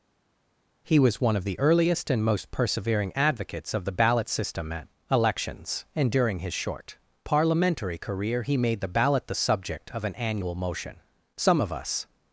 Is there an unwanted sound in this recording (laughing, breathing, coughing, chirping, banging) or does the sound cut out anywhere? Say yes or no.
no